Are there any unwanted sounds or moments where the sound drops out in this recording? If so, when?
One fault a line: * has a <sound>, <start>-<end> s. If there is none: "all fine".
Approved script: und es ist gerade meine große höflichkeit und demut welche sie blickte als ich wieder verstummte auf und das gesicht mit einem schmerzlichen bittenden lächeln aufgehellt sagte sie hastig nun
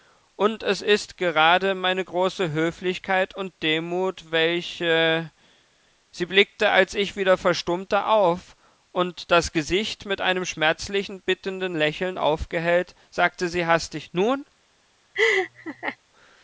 * has a laugh, 15.1-16.0 s